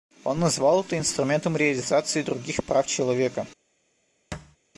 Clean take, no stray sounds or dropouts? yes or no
no